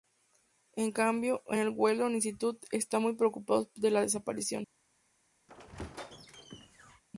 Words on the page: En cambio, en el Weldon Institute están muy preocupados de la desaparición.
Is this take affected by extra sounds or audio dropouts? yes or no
yes